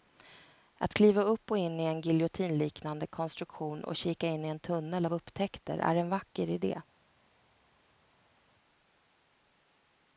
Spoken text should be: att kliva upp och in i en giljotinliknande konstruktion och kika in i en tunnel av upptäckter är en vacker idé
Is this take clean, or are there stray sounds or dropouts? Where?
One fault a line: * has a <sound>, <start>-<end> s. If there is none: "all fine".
all fine